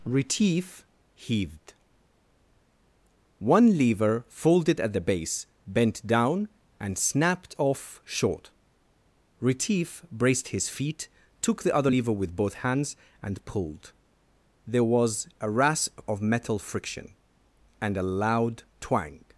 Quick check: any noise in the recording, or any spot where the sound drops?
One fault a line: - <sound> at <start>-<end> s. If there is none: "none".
none